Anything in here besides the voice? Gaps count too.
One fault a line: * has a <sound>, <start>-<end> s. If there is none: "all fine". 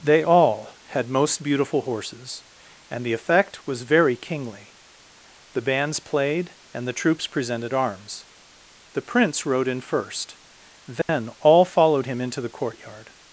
* has a dropout, 11.0-11.1 s